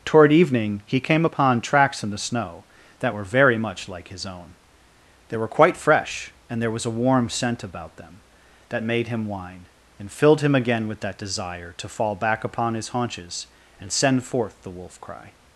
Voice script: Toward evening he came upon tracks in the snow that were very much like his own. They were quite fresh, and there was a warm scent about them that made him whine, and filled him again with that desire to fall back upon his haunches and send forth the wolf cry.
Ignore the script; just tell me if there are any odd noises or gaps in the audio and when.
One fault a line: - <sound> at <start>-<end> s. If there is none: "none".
none